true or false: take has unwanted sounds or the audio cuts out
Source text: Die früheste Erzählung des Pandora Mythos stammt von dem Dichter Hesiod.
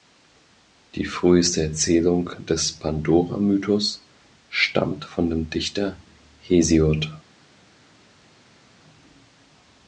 false